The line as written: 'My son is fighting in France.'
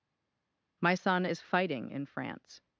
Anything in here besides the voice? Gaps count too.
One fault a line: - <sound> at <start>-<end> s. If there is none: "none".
none